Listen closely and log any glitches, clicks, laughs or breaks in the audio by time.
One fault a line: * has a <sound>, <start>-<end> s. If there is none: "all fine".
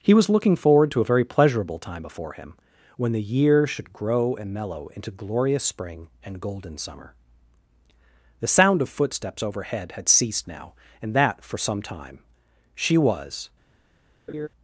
* has a laugh, 14.3-14.5 s